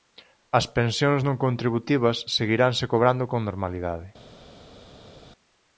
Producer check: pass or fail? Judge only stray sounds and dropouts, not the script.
pass